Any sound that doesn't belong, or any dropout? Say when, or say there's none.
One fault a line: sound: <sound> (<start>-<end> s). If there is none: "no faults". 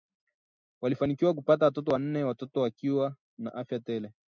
no faults